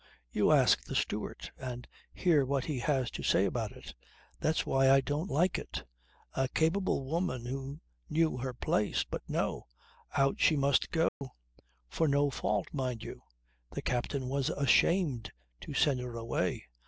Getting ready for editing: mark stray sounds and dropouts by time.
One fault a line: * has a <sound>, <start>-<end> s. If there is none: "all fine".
* has a dropout, 11.1-11.2 s